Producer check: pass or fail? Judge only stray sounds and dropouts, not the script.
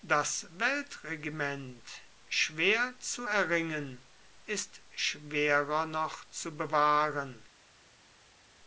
pass